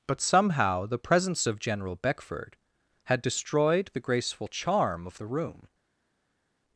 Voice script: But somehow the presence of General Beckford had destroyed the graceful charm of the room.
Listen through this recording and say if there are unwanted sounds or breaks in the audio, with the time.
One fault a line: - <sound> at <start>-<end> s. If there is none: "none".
none